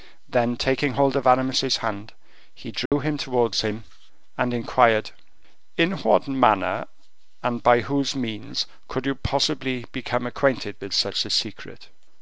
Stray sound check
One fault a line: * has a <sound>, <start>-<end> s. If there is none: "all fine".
* has a dropout, 2.9-2.9 s